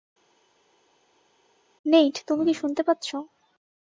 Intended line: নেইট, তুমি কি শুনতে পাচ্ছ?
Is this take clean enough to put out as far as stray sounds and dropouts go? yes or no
yes